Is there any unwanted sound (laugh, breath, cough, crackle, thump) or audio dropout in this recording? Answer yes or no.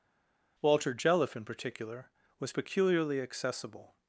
no